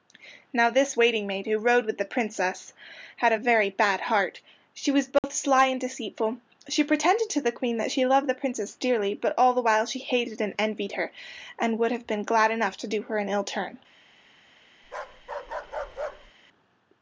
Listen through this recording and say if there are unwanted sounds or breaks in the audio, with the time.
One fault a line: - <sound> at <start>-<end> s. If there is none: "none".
- dropout at 5.2-5.2 s
- bark at 14.8-16.3 s